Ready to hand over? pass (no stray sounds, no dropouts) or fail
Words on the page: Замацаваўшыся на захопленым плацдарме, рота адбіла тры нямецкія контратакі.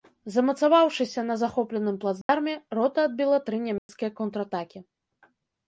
fail